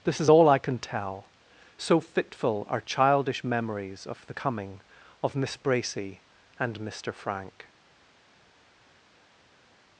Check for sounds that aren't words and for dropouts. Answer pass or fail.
pass